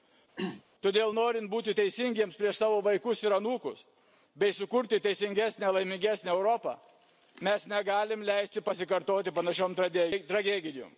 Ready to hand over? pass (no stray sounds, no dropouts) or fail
fail